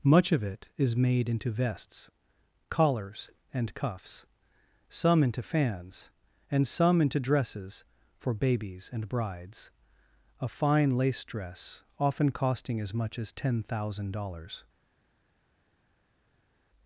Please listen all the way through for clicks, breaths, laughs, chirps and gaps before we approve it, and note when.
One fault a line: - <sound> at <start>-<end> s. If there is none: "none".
none